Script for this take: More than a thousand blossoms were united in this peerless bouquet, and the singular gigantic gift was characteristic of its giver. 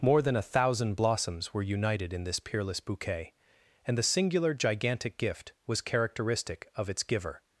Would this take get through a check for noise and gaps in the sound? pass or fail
pass